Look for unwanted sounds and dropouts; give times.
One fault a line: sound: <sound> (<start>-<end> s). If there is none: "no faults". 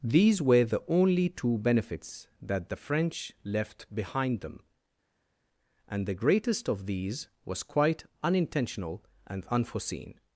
no faults